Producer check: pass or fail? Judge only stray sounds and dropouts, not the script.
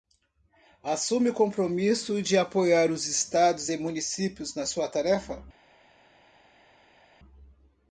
pass